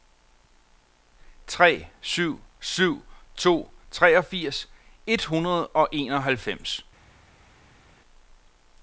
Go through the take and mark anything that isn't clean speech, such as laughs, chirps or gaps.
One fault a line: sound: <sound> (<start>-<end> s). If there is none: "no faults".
no faults